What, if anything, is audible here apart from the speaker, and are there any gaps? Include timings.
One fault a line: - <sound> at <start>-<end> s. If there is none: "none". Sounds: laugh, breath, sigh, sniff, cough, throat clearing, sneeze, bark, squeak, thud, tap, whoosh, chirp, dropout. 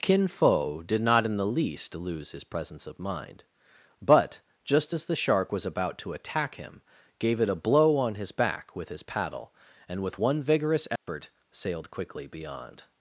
- dropout at 11.0-11.1 s